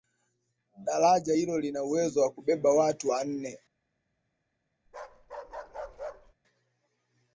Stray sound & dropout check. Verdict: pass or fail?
fail